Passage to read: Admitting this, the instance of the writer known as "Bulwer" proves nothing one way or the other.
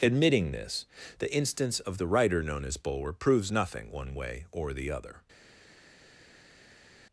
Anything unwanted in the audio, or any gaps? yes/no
no